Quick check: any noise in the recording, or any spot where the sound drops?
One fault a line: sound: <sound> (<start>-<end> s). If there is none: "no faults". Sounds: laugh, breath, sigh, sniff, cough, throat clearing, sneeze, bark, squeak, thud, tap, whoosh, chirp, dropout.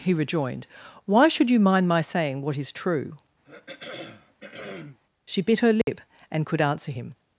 sound: throat clearing (3.4-5.0 s)
sound: dropout (5.8-5.9 s)